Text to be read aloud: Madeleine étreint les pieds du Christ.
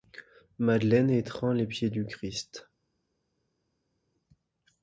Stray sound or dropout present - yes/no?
no